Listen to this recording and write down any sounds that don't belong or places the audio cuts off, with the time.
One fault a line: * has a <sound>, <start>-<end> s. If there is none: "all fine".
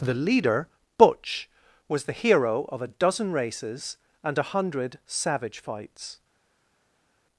all fine